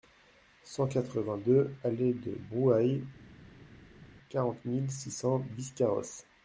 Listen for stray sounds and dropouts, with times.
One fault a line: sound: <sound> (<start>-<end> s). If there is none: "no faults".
no faults